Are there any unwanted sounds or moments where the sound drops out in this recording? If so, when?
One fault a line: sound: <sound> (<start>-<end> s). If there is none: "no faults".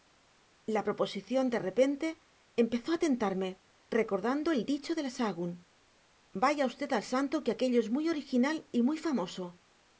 no faults